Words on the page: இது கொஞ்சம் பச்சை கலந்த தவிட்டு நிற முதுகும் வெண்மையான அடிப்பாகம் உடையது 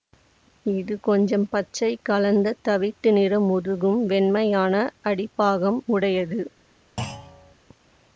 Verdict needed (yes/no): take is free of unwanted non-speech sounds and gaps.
no